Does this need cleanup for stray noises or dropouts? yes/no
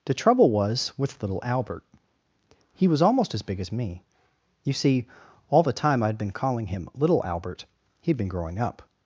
no